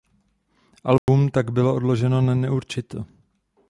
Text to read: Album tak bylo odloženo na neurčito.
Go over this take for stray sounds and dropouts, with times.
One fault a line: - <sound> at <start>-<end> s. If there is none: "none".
- dropout at 1.0-1.1 s